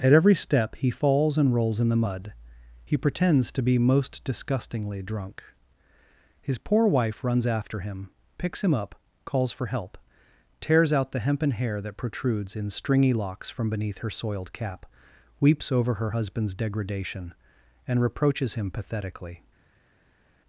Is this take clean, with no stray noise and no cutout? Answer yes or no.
yes